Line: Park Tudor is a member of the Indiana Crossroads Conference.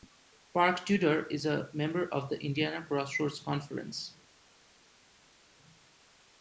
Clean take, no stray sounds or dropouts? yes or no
yes